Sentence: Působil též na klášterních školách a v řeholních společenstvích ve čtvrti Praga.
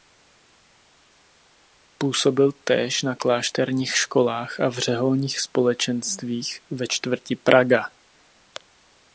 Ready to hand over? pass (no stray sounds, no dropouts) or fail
pass